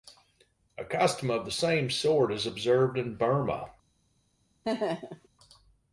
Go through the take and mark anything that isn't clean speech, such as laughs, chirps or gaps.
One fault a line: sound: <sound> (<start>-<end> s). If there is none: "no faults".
sound: laugh (4.6-5.3 s)